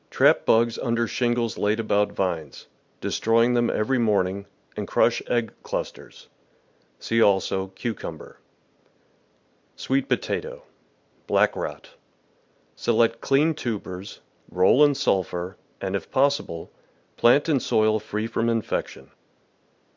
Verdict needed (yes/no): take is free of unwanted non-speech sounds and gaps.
yes